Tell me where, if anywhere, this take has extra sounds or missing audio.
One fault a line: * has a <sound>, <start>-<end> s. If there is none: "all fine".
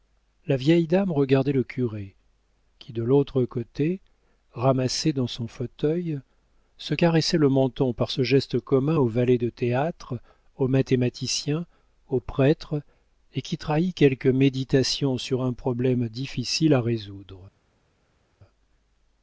all fine